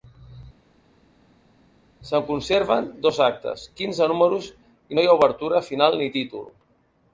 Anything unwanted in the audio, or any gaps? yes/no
no